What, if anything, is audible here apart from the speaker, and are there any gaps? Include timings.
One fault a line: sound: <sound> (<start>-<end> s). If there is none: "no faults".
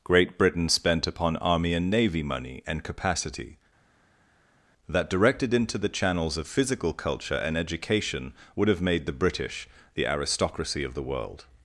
no faults